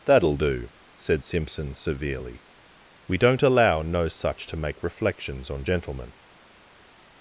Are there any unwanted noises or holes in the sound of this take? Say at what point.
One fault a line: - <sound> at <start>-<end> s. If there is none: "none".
none